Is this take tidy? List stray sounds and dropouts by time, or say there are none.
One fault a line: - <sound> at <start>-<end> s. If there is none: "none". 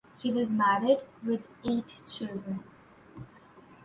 none